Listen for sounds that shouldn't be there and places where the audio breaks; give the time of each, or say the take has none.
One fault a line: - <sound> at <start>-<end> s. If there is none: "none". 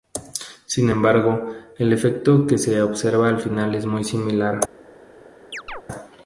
- chirp at 5.5-5.8 s